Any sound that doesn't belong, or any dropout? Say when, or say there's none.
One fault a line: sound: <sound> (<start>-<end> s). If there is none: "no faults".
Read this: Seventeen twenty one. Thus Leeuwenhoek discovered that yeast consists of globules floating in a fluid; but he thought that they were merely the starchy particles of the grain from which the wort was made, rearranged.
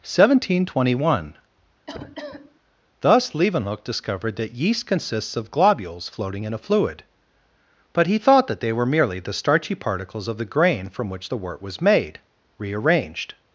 sound: cough (1.9-2.6 s)